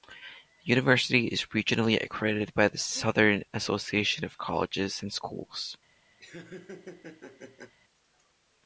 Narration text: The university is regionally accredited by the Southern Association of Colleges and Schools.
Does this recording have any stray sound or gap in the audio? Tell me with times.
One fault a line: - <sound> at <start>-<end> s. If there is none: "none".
- laugh at 6.2-7.7 s